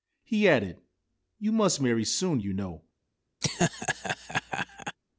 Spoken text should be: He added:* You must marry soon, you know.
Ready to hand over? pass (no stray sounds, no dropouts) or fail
fail